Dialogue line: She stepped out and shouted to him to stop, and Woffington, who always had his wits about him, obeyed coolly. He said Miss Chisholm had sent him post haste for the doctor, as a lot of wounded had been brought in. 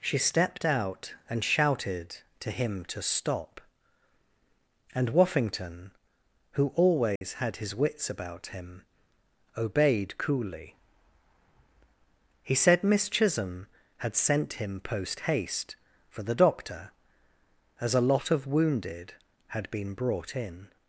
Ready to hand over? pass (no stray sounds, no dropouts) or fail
fail